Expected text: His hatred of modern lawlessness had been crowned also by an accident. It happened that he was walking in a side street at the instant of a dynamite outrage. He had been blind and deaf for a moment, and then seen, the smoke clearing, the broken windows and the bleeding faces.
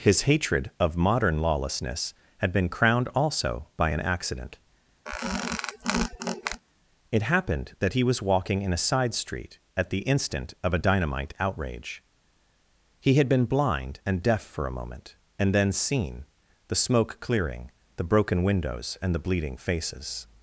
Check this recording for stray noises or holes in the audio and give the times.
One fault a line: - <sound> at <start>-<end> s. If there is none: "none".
- squeak at 5.1-6.6 s